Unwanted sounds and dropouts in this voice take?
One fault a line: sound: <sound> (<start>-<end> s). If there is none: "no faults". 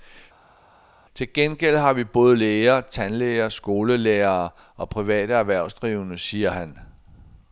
no faults